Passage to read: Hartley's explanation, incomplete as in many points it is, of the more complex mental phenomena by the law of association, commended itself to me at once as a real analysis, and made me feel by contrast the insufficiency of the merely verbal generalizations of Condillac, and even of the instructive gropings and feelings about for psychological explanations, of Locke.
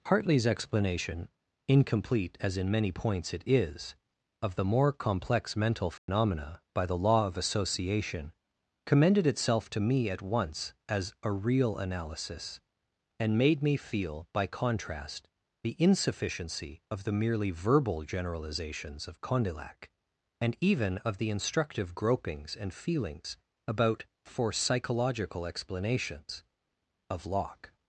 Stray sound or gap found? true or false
true